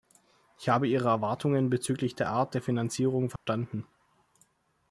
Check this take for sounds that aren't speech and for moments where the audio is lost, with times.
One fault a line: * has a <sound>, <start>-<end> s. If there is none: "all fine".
* has a dropout, 3.4-3.5 s